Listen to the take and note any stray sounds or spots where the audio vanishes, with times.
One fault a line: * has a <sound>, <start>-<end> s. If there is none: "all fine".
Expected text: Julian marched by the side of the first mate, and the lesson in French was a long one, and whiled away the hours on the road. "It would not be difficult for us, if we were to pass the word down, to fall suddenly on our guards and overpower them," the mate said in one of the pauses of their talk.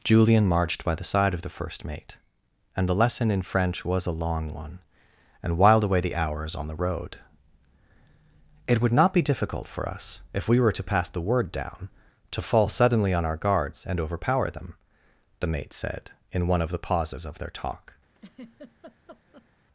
* has a laugh, 18.1-19.5 s